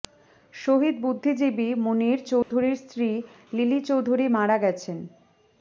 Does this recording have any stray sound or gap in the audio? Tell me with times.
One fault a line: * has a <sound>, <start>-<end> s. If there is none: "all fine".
* has a dropout, 2.4-2.5 s